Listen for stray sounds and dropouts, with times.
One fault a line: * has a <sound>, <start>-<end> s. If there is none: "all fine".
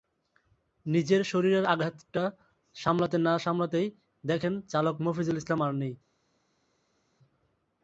all fine